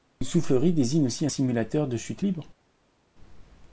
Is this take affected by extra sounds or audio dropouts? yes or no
no